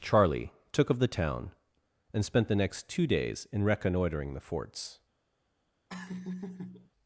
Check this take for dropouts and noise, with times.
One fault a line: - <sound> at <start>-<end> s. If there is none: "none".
- laugh at 5.9-6.9 s